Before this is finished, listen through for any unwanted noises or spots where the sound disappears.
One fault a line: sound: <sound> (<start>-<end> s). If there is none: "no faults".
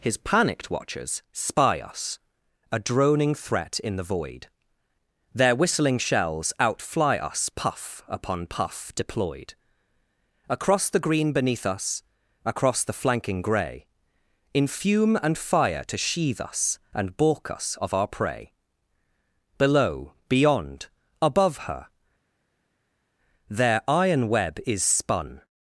no faults